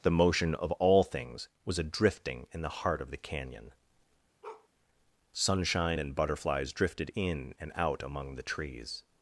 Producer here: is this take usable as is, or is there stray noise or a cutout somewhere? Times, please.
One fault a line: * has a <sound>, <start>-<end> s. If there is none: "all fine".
* has a bark, 4.4-4.7 s